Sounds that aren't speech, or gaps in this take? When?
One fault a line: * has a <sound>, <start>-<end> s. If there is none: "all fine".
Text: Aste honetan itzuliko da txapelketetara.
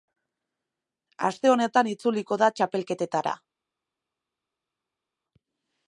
all fine